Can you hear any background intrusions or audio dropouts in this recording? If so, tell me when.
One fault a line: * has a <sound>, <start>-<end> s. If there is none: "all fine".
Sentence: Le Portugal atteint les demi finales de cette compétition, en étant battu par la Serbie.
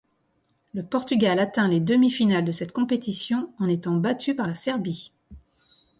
all fine